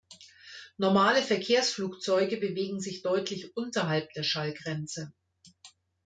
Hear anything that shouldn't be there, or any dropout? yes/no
no